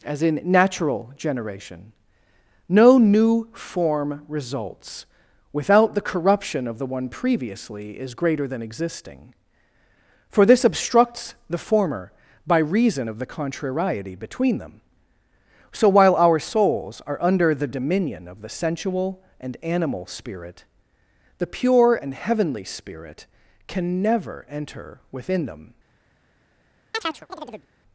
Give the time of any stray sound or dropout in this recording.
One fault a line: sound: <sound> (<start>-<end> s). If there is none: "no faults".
sound: chirp (26.9-27.7 s)